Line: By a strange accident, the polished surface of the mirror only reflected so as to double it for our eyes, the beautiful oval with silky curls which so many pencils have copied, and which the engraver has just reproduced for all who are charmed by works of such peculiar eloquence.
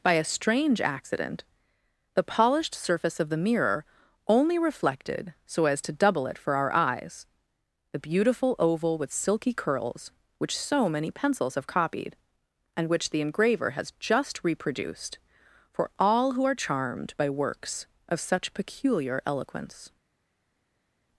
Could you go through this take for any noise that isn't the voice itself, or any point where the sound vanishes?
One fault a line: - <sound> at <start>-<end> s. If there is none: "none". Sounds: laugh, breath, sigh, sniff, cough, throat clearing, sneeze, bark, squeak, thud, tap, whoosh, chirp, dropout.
none